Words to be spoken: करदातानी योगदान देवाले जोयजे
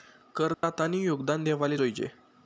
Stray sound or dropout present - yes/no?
yes